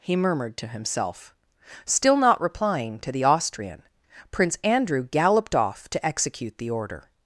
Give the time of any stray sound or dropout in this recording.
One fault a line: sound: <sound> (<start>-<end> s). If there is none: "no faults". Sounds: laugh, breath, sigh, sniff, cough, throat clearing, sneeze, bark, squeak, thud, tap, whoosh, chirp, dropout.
no faults